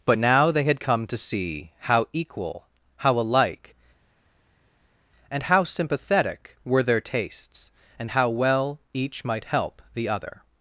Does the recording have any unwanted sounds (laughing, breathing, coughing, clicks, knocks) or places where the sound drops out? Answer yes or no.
no